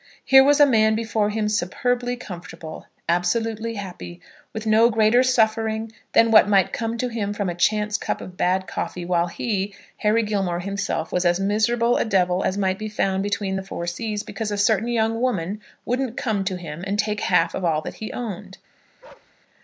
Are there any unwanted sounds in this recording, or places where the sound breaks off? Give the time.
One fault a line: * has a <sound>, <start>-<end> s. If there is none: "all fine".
* has a bark, 19.0-19.3 s